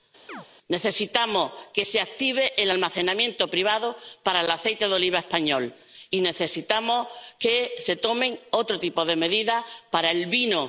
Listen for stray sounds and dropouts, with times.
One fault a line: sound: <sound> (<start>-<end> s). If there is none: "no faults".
sound: chirp (0.3-0.5 s)